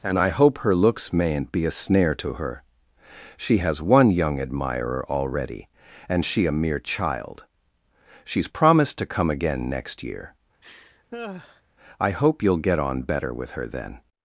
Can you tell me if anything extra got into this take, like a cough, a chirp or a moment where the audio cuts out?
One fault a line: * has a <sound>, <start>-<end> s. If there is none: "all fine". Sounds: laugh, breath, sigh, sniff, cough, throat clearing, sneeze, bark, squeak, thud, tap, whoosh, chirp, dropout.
* has a laugh, 10.6-11.6 s